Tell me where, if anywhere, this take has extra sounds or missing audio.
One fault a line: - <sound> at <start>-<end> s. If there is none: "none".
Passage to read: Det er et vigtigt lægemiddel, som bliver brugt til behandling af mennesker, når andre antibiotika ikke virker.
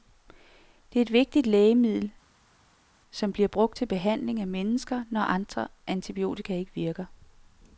none